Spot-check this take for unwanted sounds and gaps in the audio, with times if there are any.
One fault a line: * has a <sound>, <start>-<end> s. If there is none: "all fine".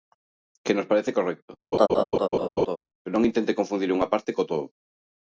* has a laugh, 1.7-2.8 s